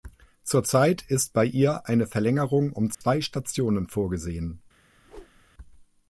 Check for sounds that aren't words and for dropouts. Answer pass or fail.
fail